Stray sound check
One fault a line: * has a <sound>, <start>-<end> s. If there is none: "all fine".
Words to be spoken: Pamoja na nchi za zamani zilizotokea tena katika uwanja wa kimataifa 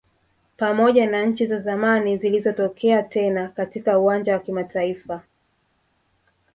all fine